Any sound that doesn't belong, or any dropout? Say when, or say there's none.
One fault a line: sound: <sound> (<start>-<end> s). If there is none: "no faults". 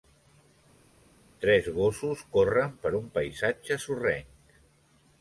no faults